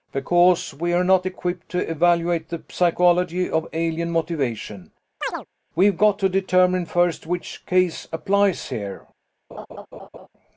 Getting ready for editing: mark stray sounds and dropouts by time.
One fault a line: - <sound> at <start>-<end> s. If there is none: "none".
- chirp at 5.2-5.5 s
- laugh at 9.5-10.3 s